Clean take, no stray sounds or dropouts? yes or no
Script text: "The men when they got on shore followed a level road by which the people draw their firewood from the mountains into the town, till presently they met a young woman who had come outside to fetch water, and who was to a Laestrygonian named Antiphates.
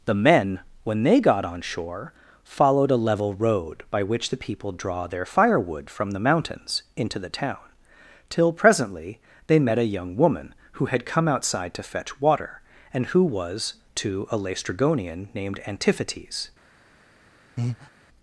no